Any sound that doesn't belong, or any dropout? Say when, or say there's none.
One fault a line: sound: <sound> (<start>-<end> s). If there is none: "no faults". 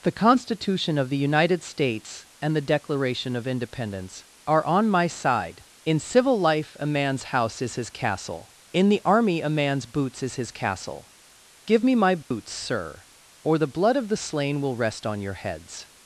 sound: dropout (12.2-12.3 s)